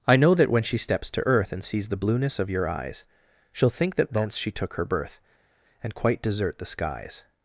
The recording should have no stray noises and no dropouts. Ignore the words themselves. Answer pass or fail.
pass